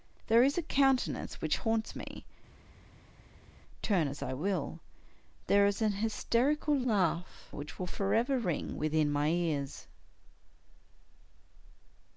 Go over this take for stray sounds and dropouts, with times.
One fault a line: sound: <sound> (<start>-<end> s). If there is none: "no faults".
no faults